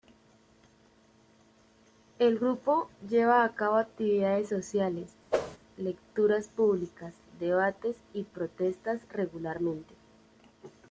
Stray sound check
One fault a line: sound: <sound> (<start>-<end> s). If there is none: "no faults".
sound: whoosh (5.3-5.6 s)